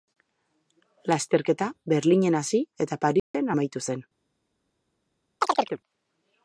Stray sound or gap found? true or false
true